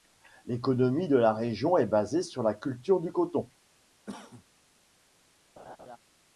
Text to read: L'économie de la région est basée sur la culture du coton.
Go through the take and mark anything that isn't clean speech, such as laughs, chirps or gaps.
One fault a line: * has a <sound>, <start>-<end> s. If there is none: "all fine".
* has a cough, 4.1-4.4 s
* has a laugh, 5.6-6.0 s